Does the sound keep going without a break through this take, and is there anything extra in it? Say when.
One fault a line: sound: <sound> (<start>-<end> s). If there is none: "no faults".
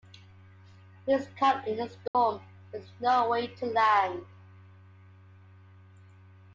sound: dropout (2.1-2.1 s)